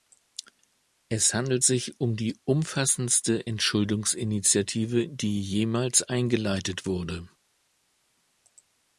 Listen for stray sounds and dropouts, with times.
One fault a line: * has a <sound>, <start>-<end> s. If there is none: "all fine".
all fine